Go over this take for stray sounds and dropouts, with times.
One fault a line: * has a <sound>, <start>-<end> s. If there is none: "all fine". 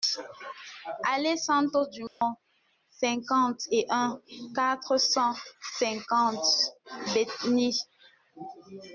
* has a dropout, 2.1-2.2 s